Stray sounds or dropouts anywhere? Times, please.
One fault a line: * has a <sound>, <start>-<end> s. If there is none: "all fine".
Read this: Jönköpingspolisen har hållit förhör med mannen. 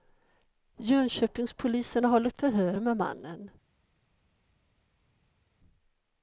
all fine